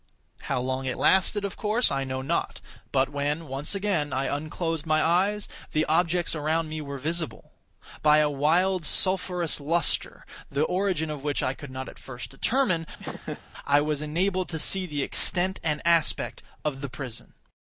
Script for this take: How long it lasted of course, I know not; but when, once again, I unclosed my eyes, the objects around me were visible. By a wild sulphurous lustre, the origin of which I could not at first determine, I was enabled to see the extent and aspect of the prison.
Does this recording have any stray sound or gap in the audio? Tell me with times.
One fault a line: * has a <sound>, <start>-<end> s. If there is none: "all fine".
* has a laugh, 13.0-13.4 s